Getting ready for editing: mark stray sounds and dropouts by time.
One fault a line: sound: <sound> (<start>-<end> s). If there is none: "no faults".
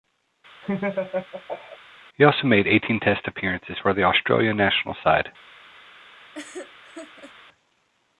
sound: laugh (0.6-1.8 s)
sound: laugh (6.3-7.3 s)